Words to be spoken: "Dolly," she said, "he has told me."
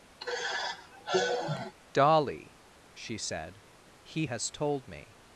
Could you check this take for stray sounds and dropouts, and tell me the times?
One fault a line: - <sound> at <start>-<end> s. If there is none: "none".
- sigh at 0.2-1.7 s